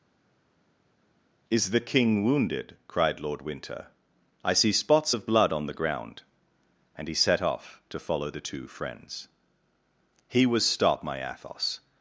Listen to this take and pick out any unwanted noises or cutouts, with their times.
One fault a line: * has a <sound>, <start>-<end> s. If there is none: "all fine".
all fine